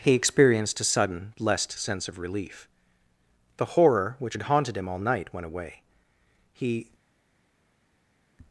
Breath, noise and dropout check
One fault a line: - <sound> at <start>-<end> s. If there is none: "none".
none